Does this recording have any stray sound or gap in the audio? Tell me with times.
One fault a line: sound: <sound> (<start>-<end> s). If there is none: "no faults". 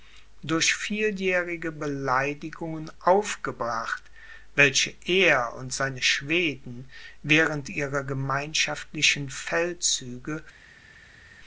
no faults